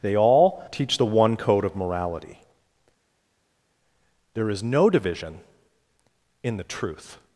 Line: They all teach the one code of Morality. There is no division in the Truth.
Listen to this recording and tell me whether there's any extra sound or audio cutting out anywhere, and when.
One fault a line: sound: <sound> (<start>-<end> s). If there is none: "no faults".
no faults